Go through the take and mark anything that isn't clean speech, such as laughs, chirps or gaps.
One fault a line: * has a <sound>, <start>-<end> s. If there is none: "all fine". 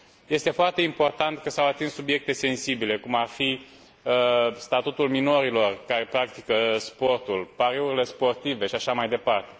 all fine